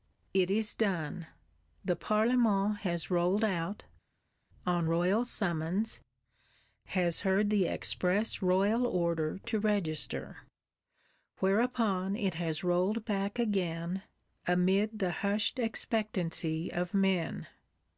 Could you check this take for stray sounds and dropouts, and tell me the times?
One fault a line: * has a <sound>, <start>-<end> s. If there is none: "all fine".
all fine